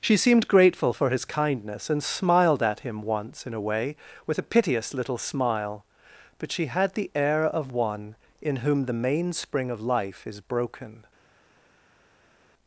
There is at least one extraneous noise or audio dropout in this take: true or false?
false